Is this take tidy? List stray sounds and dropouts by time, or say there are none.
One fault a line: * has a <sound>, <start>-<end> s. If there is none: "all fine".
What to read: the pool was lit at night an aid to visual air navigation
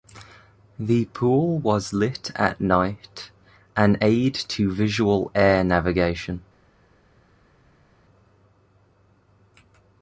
all fine